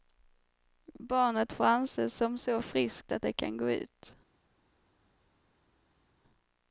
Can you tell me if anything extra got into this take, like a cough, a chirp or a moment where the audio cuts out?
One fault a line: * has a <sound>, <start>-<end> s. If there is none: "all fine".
all fine